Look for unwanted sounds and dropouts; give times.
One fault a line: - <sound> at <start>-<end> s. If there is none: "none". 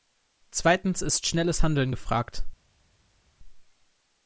none